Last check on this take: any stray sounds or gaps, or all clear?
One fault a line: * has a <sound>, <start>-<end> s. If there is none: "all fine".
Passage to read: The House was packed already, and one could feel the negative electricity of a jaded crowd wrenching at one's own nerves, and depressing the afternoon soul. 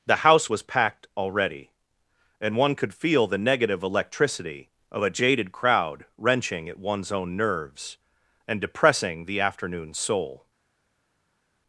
all fine